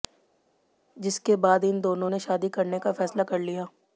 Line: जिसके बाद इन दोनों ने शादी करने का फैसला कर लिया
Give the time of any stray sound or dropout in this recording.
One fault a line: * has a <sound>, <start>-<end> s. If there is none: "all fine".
all fine